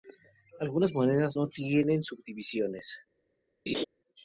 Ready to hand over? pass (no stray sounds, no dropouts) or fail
fail